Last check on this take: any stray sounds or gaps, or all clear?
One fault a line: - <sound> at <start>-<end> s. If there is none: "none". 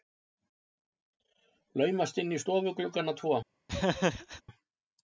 - laugh at 3.7-4.4 s